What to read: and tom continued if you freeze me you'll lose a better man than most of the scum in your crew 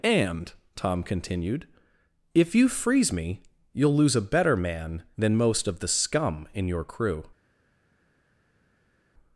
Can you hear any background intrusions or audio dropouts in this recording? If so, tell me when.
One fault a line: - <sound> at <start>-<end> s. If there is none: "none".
none